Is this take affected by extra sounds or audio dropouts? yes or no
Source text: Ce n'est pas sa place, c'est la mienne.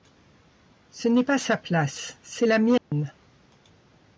yes